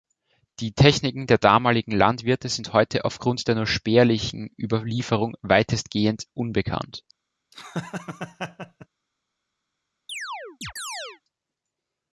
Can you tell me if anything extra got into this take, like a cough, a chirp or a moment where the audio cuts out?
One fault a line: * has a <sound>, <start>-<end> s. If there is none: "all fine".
* has a laugh, 7.5-8.9 s
* has a chirp, 10.1-11.2 s